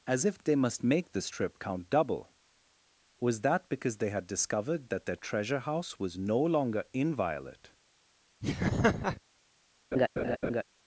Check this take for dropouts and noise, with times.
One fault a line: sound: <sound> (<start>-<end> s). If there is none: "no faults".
sound: laugh (8.4-9.2 s)
sound: laugh (9.9-10.6 s)